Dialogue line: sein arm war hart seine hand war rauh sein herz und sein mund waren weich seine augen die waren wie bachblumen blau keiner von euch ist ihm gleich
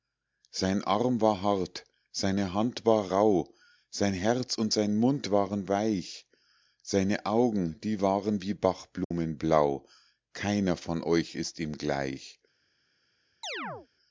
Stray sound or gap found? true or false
true